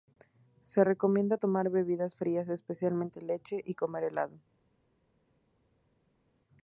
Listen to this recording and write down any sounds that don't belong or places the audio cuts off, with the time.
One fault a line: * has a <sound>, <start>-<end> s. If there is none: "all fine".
all fine